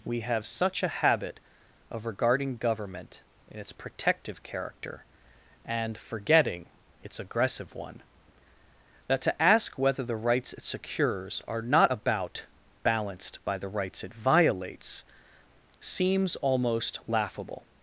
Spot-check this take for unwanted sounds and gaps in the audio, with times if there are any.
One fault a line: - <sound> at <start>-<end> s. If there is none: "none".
none